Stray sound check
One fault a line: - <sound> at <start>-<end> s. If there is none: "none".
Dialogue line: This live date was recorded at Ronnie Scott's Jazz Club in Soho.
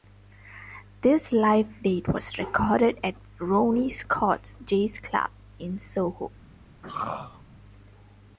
- throat clearing at 6.8-7.4 s